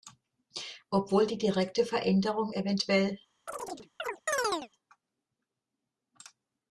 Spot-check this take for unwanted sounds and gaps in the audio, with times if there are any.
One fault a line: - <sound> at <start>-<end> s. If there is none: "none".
- chirp at 3.5-4.7 s